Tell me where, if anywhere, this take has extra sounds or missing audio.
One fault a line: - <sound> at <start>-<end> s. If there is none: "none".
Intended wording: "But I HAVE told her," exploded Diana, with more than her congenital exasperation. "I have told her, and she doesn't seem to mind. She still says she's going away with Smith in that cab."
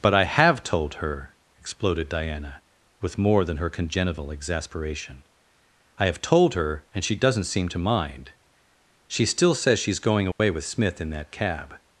- dropout at 10.3-10.4 s